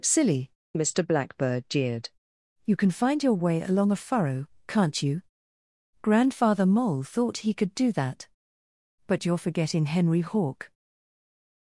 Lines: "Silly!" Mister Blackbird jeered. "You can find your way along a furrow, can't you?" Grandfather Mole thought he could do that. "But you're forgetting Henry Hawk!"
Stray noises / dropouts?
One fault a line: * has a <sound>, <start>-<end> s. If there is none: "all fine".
all fine